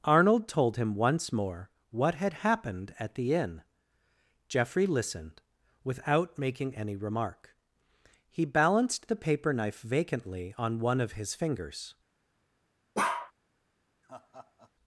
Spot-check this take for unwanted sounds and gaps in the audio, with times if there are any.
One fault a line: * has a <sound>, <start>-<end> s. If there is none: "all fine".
* has a bark, 12.9-13.3 s
* has a laugh, 14.0-14.7 s